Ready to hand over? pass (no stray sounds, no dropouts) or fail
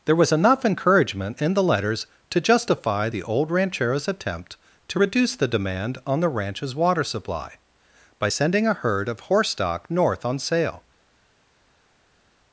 pass